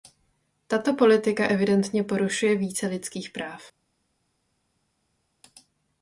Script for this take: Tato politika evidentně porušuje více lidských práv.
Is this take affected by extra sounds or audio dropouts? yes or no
no